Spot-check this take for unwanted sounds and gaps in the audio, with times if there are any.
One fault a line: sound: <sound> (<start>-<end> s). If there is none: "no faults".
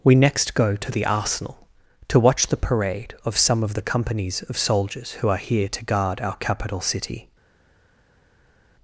no faults